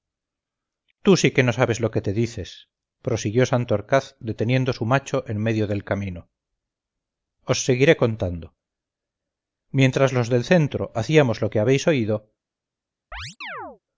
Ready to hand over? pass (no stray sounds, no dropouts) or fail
fail